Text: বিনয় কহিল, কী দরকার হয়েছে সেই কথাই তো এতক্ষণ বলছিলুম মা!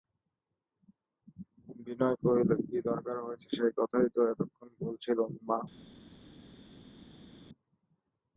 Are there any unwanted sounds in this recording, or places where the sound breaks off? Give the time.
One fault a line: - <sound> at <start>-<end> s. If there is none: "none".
none